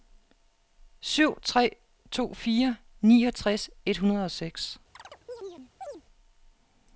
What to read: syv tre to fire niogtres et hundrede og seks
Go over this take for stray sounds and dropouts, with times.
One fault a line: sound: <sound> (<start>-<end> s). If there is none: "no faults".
sound: chirp (4.9-6.0 s)